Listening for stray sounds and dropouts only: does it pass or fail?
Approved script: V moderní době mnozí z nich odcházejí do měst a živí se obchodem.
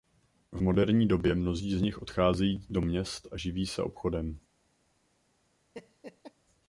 fail